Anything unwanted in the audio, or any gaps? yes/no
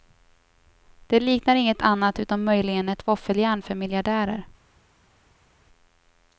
no